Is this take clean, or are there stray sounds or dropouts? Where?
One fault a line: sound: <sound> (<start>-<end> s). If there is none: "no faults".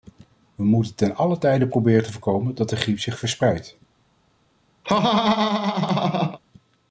sound: laugh (4.8-6.4 s)